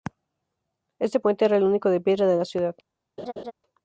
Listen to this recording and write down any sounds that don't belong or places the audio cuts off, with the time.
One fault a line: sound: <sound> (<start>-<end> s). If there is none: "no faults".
sound: laugh (3.2-3.5 s)